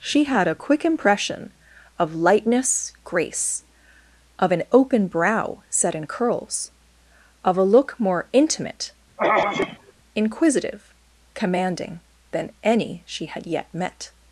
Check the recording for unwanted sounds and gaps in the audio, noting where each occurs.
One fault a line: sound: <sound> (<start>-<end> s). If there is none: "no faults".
sound: throat clearing (9.2-9.9 s)